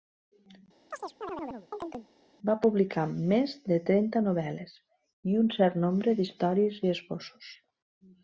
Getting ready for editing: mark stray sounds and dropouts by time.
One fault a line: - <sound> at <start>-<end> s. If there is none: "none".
- chirp at 0.9-2.1 s